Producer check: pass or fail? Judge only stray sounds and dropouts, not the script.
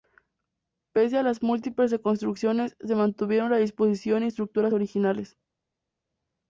pass